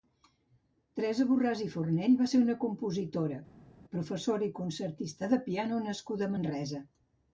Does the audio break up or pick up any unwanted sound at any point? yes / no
no